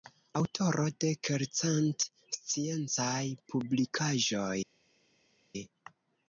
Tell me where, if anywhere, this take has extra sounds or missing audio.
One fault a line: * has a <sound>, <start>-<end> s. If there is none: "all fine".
all fine